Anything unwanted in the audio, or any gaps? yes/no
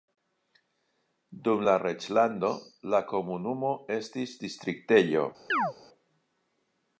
yes